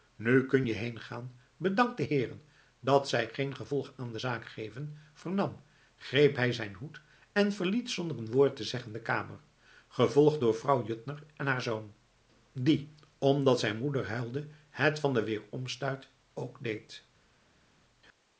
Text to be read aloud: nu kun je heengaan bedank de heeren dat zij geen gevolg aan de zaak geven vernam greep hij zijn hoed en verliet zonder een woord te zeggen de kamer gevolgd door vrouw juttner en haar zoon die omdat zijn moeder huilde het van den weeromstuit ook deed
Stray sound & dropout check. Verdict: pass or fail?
pass